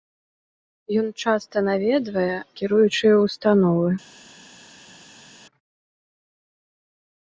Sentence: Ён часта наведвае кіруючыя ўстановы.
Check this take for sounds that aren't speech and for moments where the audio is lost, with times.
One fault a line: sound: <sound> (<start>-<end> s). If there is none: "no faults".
no faults